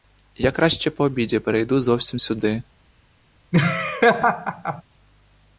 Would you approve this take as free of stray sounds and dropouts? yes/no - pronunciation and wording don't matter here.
no